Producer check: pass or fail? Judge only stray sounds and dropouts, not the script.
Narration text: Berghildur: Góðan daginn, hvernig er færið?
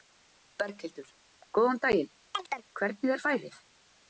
fail